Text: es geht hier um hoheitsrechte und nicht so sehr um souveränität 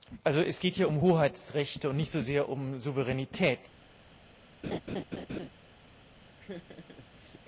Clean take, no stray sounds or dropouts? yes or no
no